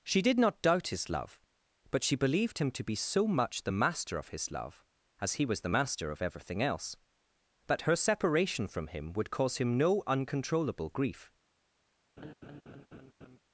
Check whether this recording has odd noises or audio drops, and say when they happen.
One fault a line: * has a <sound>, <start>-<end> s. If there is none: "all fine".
* has a laugh, 12.2-13.4 s